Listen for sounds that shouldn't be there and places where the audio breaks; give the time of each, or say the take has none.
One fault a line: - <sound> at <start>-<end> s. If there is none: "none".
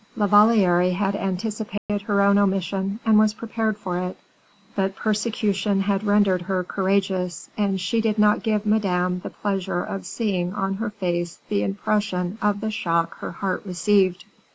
- dropout at 1.8-1.9 s